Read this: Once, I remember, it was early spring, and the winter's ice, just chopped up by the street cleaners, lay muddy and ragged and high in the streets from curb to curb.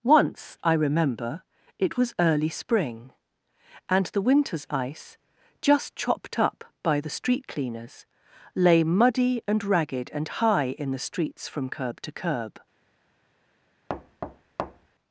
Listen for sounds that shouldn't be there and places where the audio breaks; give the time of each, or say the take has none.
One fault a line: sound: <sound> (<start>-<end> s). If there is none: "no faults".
sound: thud (13.9-14.9 s)